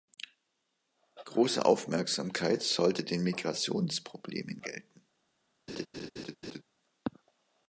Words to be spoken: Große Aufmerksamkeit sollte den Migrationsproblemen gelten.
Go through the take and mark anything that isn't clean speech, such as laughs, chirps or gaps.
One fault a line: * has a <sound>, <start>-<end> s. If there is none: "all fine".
* has a laugh, 5.7-6.6 s